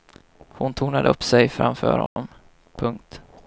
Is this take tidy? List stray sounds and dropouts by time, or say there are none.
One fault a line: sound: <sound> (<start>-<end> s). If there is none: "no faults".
sound: dropout (2.1-2.2 s)